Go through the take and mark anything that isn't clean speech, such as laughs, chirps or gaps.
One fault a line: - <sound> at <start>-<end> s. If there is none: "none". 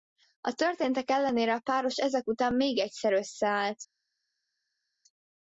none